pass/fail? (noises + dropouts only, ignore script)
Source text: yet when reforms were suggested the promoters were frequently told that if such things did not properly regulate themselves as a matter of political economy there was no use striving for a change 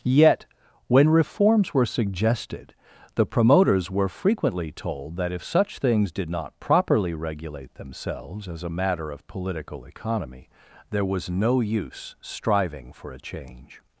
pass